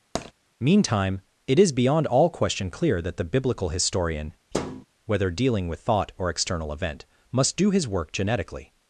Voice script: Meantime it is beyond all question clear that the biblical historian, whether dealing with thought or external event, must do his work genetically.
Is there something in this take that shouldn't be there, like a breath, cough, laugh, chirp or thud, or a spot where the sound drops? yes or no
yes